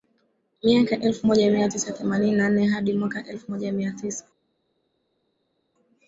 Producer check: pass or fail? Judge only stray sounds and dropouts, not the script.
pass